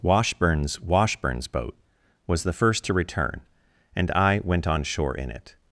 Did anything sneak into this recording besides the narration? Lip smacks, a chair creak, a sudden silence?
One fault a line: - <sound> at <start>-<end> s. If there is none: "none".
none